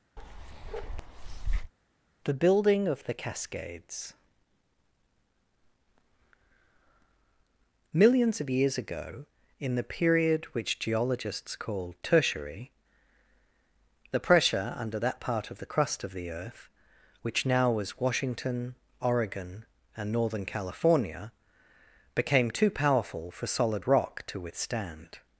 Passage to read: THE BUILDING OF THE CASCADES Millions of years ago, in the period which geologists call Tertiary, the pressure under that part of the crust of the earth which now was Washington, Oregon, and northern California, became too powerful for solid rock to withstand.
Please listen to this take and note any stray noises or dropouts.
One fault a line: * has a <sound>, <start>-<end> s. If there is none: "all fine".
* has a bark, 0.2-1.7 s